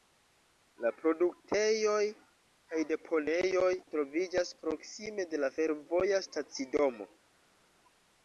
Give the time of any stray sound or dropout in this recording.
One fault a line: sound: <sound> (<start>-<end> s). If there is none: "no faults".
no faults